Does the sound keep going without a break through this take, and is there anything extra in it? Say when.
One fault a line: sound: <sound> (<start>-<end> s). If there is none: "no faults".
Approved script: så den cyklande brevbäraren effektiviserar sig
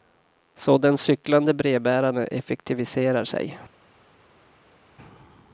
no faults